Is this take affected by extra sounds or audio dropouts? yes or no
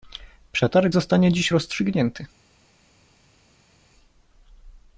no